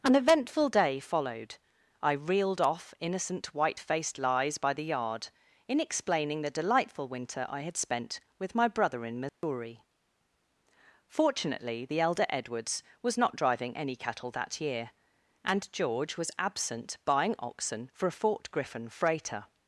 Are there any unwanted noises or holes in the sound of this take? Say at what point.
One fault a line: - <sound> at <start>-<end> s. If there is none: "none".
- dropout at 9.3-9.4 s